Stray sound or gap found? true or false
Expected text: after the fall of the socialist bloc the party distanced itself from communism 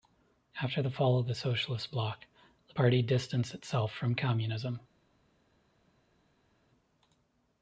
false